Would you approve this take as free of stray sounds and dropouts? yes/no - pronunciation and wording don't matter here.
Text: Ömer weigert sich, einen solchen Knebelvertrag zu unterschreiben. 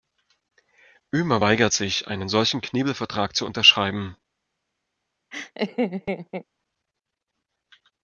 no